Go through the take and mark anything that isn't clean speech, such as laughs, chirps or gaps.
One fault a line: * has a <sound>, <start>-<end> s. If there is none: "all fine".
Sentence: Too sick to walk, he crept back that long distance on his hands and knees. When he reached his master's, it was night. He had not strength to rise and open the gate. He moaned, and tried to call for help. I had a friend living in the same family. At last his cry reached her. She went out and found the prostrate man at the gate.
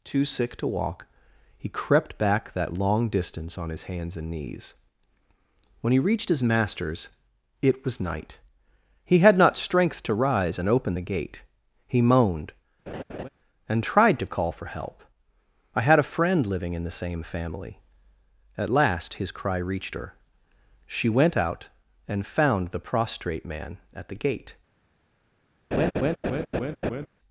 * has a laugh, 12.9-13.3 s
* has a laugh, 25.7-27.1 s